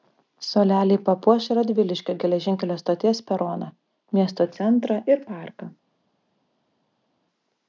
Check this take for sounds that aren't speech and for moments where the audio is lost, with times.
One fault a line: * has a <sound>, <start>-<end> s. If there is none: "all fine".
all fine